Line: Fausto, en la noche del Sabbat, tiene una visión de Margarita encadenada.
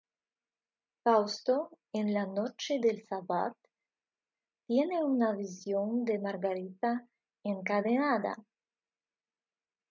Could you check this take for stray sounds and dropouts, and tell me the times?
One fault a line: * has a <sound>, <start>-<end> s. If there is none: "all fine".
all fine